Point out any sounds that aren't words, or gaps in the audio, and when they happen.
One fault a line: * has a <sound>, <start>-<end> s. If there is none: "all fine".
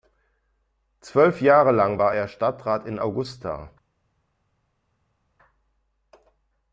all fine